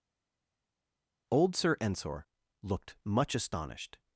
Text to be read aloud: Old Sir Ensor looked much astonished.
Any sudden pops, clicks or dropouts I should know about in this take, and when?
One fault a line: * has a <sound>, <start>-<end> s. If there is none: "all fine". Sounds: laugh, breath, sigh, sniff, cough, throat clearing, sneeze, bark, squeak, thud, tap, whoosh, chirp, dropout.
all fine